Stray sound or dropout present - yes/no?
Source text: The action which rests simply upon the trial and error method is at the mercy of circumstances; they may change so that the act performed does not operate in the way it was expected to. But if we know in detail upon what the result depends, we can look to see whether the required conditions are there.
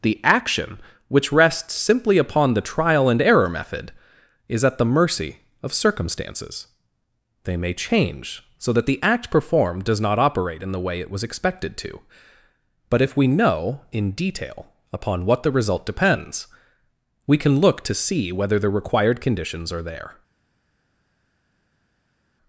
no